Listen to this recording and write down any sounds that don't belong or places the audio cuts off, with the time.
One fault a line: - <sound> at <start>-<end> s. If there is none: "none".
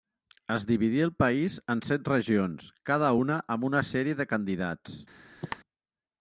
- cough at 5.4-5.6 s